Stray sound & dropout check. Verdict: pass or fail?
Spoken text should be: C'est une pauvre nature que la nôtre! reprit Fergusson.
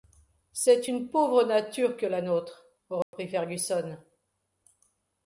fail